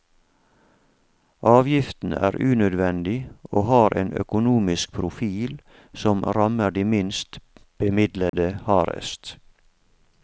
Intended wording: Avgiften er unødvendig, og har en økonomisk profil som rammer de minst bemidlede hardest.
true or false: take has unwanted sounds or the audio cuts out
true